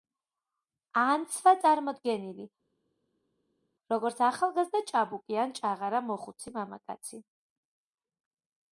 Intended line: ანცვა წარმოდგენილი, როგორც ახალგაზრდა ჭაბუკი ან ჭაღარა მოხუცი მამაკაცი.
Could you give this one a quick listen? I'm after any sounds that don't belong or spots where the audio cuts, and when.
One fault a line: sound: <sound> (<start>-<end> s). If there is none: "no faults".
no faults